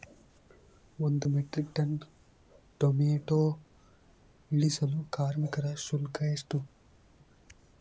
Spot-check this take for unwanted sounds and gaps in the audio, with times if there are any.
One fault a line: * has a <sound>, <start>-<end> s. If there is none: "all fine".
all fine